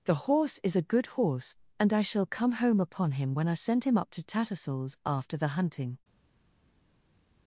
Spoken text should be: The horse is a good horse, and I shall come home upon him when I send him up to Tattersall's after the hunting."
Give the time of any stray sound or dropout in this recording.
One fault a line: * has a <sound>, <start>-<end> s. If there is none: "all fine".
all fine